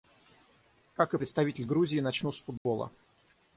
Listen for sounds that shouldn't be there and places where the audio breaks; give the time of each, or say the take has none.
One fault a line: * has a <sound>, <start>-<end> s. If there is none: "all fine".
* has a dropout, 2.6-2.7 s